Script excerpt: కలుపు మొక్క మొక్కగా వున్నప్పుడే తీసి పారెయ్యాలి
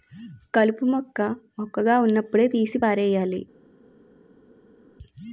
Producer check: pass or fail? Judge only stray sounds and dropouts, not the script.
pass